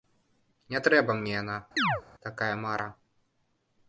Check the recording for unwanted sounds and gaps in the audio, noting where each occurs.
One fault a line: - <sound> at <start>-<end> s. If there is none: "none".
- chirp at 1.8-2.0 s